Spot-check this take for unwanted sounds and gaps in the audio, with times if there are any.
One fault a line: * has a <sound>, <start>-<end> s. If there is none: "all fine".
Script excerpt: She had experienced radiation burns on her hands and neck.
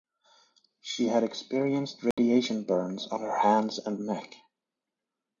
* has a dropout, 2.1-2.2 s